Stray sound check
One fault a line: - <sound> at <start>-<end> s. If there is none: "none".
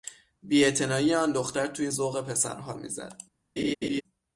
- laugh at 3.6-4.0 s